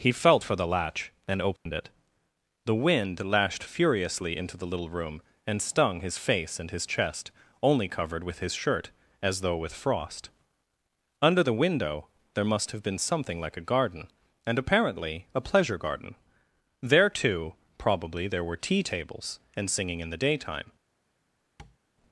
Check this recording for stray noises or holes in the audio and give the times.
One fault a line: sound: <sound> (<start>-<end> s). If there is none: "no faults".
sound: dropout (1.6-1.7 s)
sound: tap (21.6-21.8 s)